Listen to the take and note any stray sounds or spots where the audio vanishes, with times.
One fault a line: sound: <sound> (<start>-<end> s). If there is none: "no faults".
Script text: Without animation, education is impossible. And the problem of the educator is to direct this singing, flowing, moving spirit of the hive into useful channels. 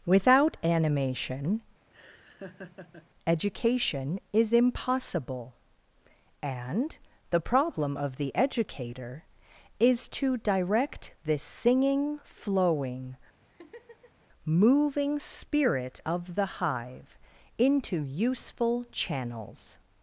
sound: laugh (1.9-3.1 s)
sound: laugh (13.4-14.3 s)